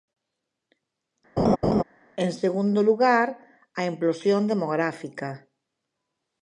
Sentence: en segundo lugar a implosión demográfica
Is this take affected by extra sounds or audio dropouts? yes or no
yes